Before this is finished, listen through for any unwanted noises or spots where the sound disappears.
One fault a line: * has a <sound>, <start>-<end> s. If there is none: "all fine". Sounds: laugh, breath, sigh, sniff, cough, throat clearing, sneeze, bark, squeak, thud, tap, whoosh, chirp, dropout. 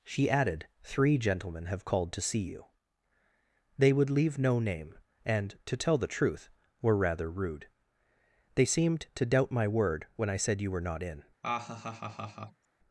* has a laugh, 11.4-12.7 s